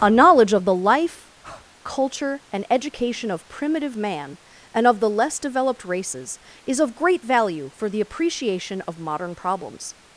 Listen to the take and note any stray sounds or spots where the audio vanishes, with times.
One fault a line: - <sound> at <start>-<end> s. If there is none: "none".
- breath at 1.4-1.7 s